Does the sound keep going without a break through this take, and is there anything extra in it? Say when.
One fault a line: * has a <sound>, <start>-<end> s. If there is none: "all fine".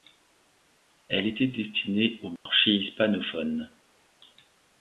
* has a dropout, 2.4-2.5 s